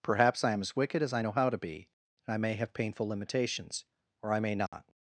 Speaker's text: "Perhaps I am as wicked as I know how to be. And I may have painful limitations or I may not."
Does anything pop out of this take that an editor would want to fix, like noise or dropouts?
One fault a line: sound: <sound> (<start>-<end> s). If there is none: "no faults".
sound: dropout (4.7-4.7 s)